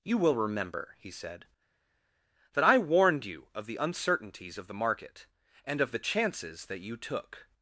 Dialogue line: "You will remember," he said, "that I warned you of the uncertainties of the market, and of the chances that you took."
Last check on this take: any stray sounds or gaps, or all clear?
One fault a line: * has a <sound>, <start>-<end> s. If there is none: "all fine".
all fine